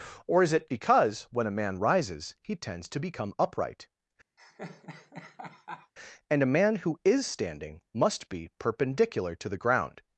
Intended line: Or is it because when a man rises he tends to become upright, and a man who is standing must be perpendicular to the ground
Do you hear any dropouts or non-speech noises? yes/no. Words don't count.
yes